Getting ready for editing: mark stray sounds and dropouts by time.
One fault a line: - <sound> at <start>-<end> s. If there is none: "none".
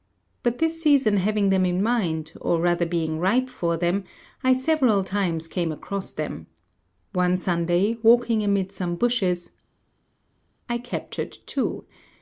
none